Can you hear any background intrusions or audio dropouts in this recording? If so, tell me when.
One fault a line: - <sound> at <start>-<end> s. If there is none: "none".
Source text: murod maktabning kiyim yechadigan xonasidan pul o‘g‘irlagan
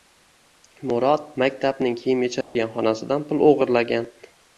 - dropout at 2.4-2.6 s